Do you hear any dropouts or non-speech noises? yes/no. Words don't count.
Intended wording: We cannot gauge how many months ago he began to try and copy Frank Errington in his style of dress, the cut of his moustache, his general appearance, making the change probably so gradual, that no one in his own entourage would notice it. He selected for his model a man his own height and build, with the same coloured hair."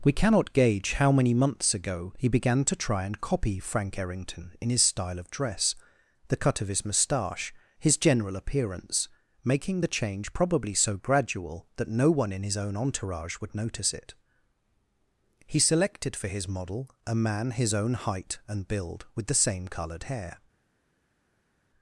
no